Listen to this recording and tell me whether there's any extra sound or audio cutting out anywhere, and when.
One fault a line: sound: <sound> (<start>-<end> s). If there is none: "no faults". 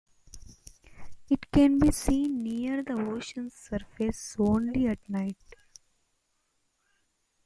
no faults